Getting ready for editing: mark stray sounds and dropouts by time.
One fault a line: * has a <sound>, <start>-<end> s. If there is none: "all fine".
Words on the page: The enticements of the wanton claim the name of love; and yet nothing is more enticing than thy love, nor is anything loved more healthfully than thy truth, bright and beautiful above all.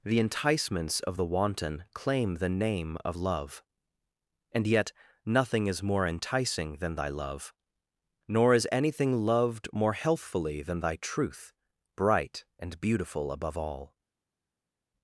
all fine